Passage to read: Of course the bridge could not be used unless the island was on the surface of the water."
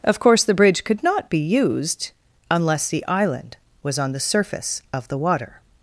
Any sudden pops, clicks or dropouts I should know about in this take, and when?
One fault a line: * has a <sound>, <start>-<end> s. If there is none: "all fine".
all fine